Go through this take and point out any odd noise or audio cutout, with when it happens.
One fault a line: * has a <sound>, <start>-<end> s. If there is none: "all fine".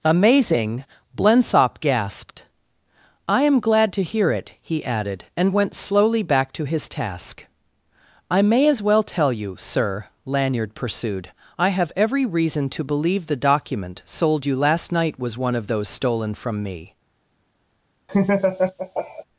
* has a laugh, 18.1-19.2 s